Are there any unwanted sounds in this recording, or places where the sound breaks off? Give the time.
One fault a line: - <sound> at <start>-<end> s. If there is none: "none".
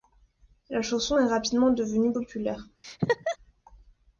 - laugh at 2.8-3.4 s